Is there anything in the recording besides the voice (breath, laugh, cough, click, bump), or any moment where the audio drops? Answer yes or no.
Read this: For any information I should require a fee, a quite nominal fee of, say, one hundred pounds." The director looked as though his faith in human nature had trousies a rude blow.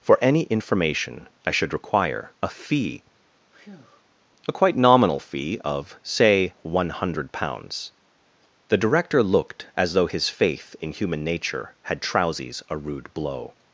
yes